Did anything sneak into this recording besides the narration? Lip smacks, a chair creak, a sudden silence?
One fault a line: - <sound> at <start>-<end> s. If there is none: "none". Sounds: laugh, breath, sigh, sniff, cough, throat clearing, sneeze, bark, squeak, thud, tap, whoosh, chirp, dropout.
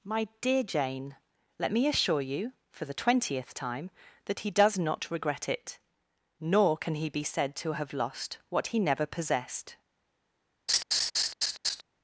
- laugh at 10.7-11.8 s